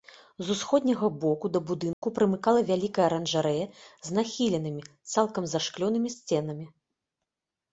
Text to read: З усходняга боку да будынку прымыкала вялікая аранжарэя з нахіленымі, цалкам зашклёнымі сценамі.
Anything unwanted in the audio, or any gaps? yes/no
yes